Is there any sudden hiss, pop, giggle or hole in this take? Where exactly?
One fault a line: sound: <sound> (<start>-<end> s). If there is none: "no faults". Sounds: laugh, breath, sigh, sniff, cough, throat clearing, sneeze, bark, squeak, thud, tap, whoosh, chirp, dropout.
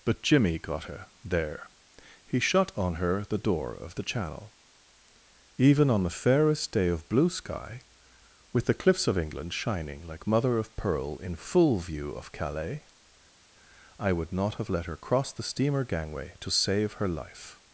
no faults